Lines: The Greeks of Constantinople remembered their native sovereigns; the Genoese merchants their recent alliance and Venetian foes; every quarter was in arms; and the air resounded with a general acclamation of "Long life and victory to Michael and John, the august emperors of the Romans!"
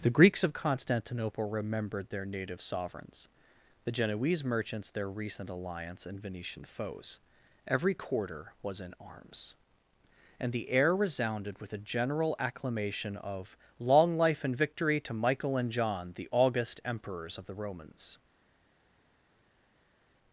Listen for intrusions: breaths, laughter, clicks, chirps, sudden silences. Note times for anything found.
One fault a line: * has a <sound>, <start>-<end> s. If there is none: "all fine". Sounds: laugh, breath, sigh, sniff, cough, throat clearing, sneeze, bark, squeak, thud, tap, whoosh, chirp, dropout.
all fine